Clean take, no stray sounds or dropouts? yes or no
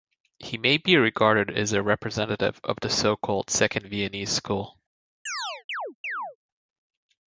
no